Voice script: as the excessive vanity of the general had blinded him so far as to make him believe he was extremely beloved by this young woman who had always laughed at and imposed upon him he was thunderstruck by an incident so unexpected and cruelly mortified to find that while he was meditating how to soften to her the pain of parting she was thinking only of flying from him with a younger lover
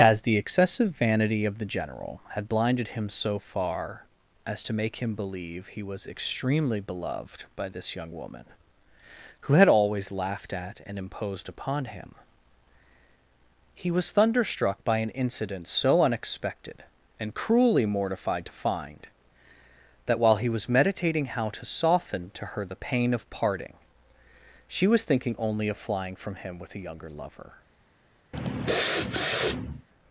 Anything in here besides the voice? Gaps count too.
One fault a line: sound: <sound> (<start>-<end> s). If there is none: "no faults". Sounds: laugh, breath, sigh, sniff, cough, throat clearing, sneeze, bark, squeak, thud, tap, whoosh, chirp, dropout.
sound: sniff (28.3-29.9 s)